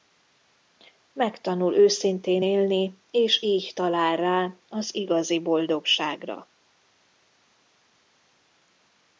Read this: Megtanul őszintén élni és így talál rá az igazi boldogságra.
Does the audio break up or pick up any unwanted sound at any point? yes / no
no